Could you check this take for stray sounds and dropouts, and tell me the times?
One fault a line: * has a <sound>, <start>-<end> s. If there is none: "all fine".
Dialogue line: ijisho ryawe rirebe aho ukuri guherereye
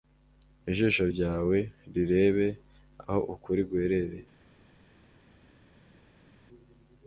all fine